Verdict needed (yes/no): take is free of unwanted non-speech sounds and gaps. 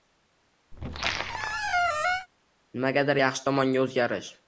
no